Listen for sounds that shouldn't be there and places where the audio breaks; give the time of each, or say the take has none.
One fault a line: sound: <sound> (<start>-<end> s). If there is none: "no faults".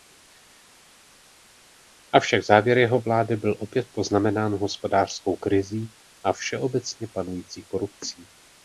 no faults